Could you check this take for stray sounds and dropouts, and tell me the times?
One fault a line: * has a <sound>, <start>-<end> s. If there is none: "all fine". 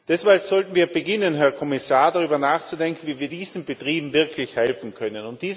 all fine